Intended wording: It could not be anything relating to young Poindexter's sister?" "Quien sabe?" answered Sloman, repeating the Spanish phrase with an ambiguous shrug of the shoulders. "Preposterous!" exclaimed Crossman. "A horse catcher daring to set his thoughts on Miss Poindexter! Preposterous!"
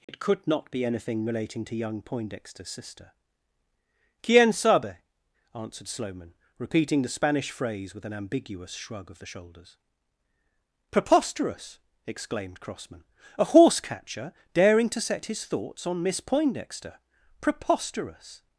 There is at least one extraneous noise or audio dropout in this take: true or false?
true